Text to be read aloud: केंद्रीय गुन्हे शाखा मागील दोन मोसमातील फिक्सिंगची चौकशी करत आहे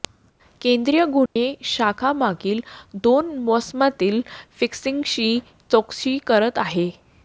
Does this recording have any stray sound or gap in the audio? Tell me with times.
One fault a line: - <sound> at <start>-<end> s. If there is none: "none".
- dropout at 1.3-1.4 s